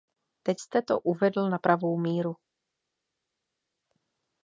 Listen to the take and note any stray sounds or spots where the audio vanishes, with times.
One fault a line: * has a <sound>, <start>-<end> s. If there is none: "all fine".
all fine